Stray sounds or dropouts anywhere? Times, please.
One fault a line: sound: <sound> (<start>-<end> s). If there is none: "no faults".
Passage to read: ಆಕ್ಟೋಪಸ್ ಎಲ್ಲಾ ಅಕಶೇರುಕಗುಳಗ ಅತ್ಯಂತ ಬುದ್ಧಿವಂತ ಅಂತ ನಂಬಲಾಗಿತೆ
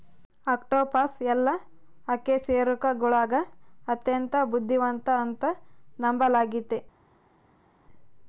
no faults